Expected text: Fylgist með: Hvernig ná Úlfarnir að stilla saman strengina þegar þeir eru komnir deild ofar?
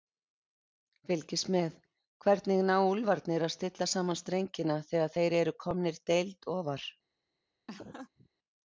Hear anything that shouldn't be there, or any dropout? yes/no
yes